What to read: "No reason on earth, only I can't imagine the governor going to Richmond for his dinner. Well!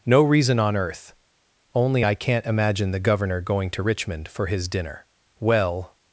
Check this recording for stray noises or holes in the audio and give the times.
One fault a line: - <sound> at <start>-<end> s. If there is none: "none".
none